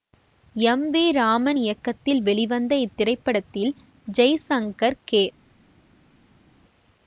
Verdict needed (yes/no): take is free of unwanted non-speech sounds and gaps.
yes